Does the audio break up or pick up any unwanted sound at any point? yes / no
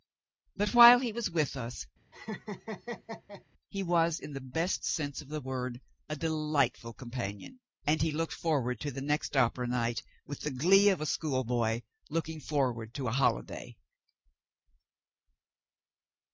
yes